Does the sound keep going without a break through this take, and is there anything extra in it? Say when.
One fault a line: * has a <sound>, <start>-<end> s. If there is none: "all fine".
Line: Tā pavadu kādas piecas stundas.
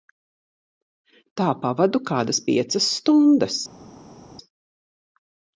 all fine